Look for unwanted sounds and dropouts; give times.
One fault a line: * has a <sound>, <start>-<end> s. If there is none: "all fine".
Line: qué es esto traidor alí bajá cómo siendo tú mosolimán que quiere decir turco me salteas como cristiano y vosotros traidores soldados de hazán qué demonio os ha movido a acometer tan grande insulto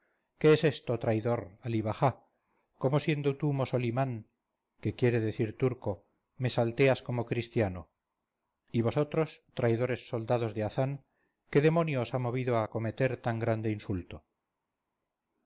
all fine